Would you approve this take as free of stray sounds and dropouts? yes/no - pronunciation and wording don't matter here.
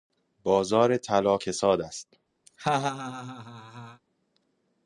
no